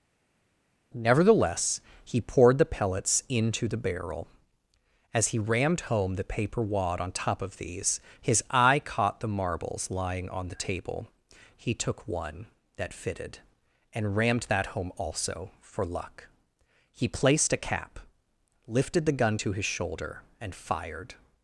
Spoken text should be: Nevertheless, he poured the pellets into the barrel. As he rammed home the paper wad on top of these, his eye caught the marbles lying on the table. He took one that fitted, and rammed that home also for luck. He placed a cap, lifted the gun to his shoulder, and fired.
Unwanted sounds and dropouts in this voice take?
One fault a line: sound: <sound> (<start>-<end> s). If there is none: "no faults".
no faults